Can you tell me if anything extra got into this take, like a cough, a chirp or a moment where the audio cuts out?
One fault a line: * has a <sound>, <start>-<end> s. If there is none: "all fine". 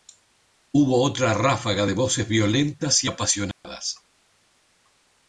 * has a dropout, 3.5-3.6 s